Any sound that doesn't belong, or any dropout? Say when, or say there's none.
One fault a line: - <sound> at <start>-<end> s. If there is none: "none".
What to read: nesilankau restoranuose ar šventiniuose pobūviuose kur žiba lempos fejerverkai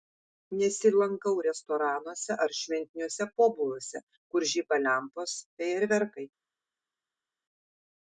none